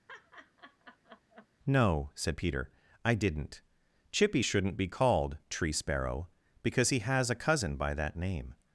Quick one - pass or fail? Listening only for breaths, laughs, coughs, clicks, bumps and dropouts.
fail